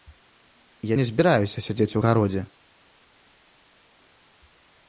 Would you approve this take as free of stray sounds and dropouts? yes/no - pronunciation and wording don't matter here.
yes